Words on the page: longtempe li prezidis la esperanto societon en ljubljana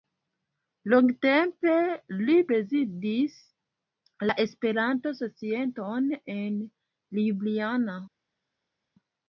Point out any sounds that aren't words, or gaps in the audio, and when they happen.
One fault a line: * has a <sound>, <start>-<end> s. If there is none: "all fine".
all fine